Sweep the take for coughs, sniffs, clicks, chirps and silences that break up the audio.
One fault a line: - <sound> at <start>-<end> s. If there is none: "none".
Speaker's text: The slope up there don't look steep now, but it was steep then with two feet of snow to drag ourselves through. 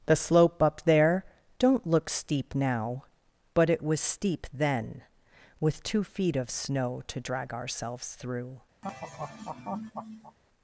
- laugh at 8.8-10.4 s